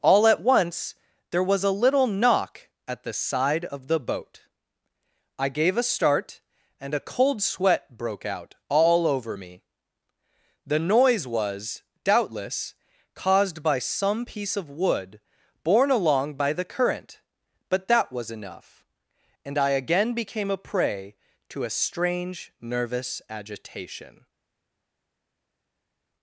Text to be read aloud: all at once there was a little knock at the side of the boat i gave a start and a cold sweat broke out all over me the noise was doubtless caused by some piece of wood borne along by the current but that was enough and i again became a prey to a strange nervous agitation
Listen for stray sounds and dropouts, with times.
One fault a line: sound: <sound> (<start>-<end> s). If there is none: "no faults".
no faults